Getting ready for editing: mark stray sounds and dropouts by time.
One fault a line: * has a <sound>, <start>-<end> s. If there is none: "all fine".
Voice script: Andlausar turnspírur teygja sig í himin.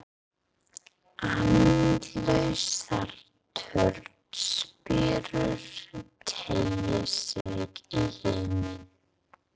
* has a dropout, 7.4-7.5 s